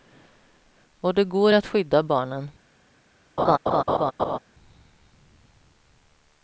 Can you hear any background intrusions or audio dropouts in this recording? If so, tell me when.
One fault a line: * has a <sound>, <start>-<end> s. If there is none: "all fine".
* has a laugh, 3.4-4.4 s